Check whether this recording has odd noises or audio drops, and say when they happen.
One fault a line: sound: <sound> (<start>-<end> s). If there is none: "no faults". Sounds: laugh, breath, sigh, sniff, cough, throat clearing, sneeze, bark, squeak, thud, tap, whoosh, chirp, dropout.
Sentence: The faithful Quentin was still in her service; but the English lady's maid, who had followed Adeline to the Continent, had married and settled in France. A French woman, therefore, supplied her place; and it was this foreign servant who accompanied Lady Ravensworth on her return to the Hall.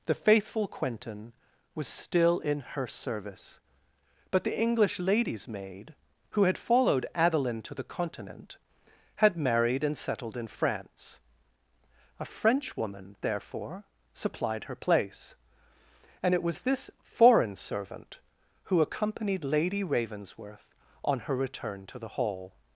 no faults